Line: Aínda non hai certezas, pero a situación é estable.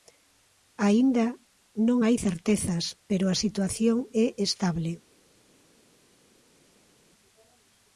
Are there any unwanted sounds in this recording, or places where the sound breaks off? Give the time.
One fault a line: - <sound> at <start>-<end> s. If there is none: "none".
none